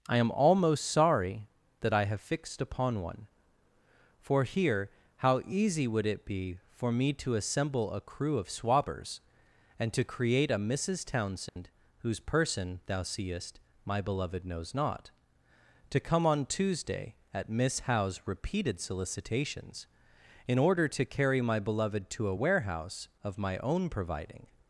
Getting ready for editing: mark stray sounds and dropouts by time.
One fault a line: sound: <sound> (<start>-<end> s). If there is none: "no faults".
sound: dropout (11.5-11.6 s)